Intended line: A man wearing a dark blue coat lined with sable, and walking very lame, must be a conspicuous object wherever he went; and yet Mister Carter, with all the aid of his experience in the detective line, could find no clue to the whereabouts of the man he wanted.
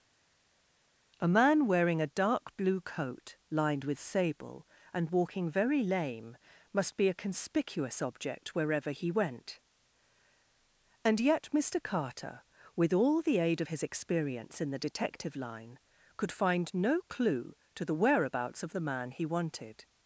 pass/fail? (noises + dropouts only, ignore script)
pass